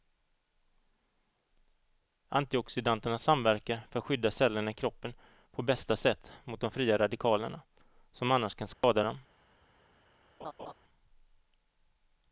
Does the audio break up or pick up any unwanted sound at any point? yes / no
yes